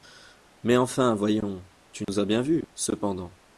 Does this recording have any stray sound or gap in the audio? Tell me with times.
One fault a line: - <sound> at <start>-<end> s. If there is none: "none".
- dropout at 2.0-2.1 s